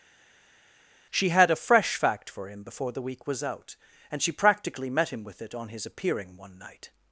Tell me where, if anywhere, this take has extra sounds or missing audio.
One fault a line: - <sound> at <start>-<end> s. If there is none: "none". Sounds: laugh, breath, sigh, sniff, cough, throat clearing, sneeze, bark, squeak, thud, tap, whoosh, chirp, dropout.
none